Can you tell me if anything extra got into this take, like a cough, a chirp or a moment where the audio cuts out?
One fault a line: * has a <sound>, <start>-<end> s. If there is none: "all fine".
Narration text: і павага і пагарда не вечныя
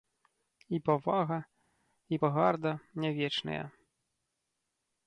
all fine